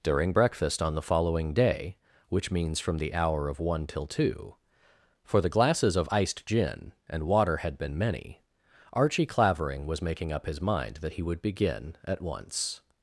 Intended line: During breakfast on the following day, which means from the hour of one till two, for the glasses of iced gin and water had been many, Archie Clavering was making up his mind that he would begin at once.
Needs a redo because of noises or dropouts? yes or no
no